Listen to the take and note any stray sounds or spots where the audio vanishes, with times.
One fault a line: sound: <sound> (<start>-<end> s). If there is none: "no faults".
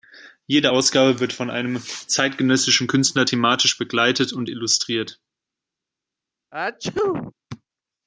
sound: sneeze (6.5-7.3 s)